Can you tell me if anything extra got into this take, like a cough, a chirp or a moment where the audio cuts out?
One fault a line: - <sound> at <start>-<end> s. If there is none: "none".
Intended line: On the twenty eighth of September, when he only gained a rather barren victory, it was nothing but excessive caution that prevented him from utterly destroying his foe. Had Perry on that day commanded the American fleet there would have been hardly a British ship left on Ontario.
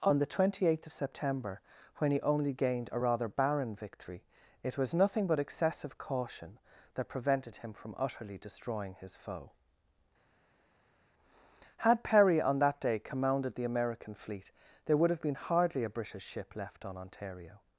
none